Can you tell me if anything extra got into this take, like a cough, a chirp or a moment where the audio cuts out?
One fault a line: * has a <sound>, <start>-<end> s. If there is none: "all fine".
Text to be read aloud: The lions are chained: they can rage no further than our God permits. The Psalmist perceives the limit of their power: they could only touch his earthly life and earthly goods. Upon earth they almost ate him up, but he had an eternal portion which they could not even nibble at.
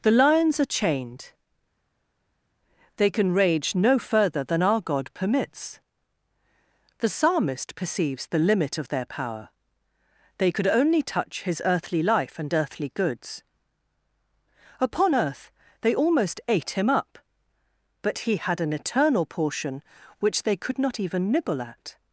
all fine